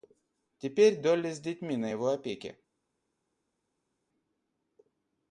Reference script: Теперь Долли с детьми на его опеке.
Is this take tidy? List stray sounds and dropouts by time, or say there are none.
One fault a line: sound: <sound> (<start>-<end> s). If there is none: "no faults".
no faults